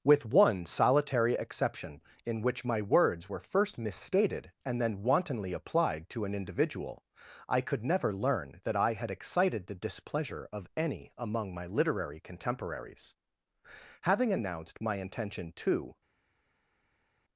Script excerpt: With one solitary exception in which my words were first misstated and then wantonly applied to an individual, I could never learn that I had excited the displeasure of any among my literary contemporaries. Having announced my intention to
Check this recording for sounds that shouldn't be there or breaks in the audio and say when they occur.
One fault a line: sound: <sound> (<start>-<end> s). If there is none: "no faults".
no faults